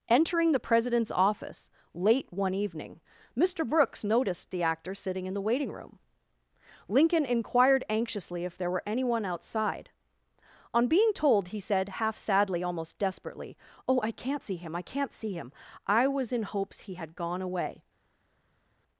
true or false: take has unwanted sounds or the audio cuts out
false